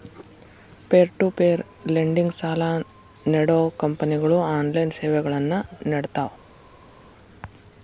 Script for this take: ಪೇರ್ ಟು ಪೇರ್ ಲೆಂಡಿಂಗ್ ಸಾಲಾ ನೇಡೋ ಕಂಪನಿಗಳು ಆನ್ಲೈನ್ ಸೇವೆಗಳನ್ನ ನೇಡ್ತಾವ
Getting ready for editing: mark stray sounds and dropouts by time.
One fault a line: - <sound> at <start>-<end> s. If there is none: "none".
none